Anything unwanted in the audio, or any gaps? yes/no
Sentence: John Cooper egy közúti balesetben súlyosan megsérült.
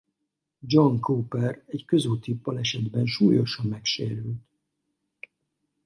no